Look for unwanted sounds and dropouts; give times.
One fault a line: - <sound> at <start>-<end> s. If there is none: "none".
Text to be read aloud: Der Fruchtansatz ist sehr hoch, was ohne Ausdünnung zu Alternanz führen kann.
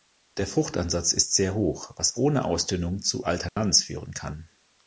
- dropout at 3.5-3.6 s